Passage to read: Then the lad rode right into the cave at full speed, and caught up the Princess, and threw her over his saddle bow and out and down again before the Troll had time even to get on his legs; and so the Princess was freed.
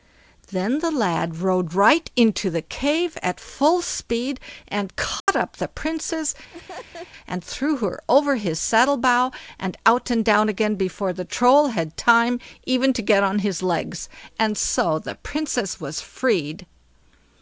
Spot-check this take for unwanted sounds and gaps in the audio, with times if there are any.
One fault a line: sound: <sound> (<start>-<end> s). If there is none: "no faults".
sound: dropout (5.2-5.3 s)
sound: laugh (6.5-7.1 s)